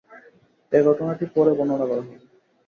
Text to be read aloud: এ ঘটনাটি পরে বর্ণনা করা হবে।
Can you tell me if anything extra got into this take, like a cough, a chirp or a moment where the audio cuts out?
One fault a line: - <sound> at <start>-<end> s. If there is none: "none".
none